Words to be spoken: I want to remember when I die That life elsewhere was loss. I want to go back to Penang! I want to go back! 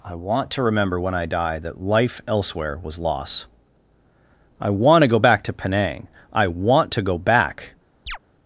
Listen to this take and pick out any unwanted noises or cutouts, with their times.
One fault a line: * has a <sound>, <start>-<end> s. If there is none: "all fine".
* has a chirp, 8.1-8.2 s